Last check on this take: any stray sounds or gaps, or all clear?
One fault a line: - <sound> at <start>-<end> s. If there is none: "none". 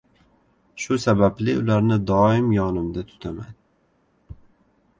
none